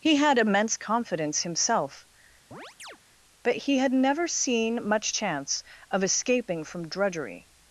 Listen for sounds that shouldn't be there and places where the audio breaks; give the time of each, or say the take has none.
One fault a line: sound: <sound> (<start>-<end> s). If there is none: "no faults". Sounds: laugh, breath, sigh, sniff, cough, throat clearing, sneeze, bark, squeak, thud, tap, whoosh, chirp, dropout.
sound: chirp (2.5-3.0 s)